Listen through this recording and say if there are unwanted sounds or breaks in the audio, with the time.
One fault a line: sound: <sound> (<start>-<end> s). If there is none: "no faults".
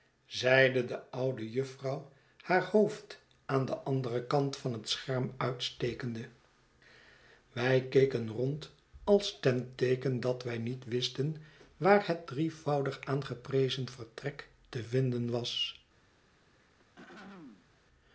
sound: throat clearing (16.5-17.8 s)